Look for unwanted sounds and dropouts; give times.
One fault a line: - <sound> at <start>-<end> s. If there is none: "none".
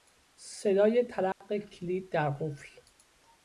- dropout at 1.3-1.4 s